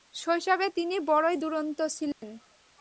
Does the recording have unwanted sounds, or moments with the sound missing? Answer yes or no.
yes